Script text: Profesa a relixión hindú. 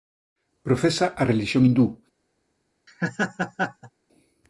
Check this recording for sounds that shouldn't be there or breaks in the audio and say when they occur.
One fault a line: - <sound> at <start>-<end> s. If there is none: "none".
- laugh at 2.9-3.9 s